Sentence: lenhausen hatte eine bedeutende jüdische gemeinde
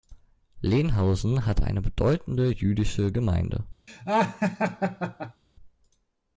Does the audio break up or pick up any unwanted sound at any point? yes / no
yes